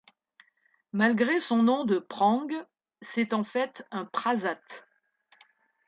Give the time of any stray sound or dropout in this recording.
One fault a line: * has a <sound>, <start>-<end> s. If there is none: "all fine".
all fine